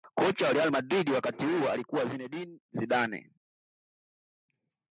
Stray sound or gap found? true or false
false